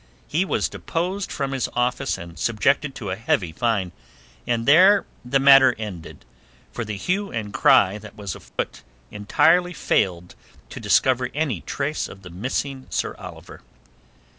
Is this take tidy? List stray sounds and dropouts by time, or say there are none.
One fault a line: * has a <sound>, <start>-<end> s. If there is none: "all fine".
* has a dropout, 8.5-8.6 s